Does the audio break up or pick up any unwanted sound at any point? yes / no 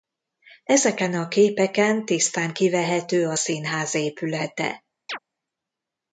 yes